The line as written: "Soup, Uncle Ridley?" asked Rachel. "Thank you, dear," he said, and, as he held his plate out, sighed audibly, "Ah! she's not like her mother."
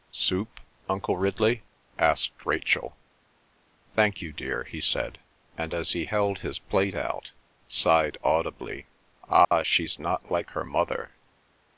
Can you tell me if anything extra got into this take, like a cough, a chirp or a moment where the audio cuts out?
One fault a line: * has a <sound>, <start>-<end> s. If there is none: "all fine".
* has a dropout, 9.4-9.5 s